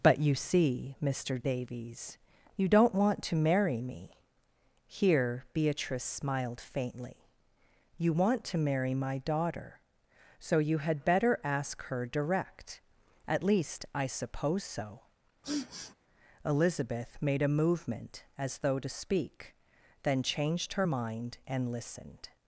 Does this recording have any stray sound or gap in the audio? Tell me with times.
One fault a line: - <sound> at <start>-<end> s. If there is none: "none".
- sniff at 15.4-15.9 s